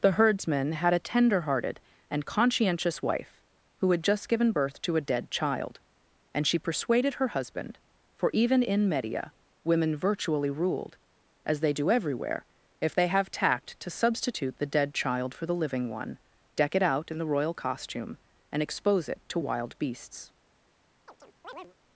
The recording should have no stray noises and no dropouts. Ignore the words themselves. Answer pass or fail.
fail